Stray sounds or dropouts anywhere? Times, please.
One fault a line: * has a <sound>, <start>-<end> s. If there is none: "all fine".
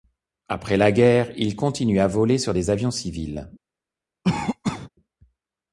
* has a cough, 4.2-4.9 s